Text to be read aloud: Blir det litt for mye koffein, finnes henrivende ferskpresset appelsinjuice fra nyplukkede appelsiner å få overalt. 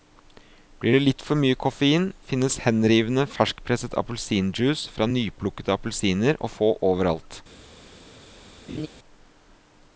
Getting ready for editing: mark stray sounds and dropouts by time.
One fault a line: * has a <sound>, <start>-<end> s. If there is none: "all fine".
* has a laugh, 8.7-8.9 s